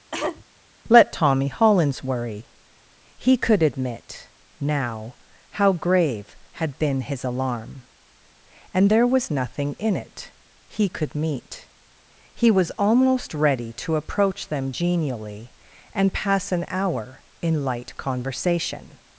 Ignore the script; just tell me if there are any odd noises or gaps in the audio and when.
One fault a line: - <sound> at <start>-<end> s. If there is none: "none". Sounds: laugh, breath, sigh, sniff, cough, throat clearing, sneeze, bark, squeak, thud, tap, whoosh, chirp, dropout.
- cough at 0.1-0.4 s